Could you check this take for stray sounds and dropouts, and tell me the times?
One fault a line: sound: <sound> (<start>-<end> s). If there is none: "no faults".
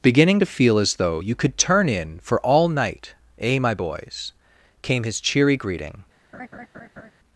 sound: laugh (6.3-7.1 s)